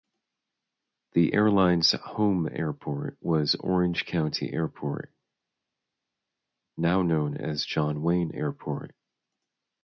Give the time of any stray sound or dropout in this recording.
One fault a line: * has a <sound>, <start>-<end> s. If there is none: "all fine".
all fine